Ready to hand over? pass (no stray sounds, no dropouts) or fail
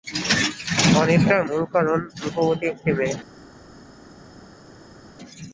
pass